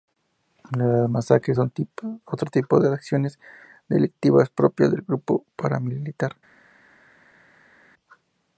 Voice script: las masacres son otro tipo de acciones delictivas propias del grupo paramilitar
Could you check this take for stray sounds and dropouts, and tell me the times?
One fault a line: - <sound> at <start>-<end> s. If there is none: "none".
none